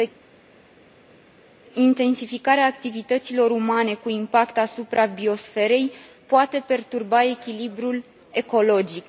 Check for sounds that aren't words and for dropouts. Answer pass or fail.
pass